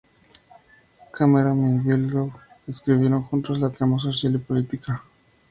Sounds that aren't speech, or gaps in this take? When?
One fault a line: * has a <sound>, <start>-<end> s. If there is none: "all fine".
all fine